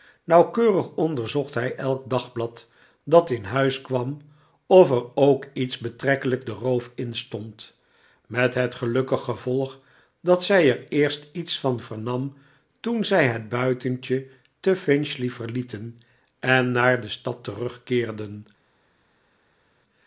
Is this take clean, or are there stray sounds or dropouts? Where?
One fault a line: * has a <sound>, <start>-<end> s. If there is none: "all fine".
all fine